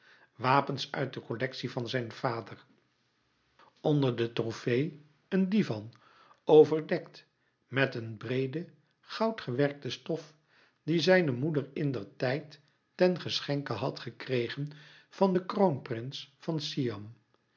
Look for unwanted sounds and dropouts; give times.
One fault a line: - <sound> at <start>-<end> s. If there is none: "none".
none